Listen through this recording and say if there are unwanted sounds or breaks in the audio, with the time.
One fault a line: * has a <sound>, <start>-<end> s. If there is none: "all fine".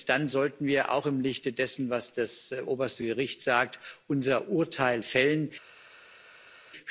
all fine